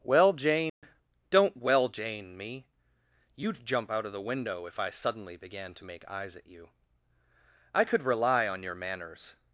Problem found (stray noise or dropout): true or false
true